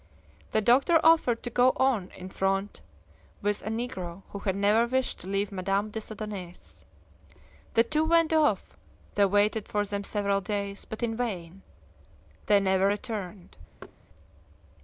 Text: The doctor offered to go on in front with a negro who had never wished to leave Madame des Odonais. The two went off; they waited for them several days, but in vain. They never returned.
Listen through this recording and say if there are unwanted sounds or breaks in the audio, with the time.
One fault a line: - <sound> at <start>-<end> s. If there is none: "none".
- thud at 13.8-14.0 s